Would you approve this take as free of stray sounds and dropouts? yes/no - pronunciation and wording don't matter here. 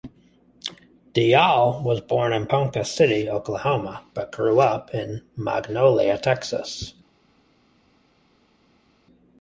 yes